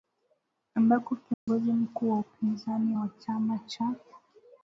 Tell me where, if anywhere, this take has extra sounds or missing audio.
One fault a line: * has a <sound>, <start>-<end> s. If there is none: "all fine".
* has a dropout, 1.3-1.5 s